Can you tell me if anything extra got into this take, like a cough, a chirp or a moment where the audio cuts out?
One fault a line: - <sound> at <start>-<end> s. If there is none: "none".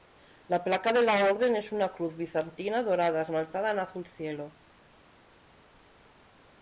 none